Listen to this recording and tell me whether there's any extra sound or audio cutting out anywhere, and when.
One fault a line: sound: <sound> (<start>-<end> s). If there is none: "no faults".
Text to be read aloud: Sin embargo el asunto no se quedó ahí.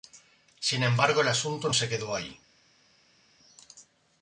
no faults